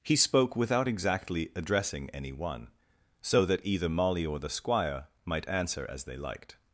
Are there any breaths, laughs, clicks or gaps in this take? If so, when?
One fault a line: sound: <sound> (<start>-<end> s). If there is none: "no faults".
no faults